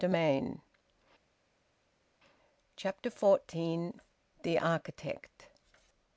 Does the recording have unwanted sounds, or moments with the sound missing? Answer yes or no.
no